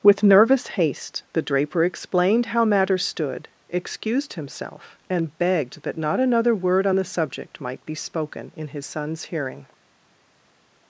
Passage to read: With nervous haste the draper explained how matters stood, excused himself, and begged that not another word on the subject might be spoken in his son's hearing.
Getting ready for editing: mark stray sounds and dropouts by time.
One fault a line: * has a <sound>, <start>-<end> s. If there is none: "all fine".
all fine